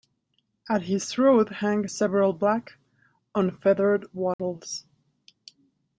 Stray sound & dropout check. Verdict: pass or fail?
fail